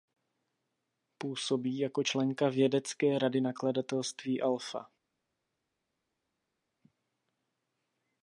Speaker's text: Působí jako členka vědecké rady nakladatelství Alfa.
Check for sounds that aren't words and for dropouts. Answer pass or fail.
pass